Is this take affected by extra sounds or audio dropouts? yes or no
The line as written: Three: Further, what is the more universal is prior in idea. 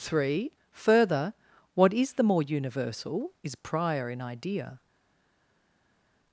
no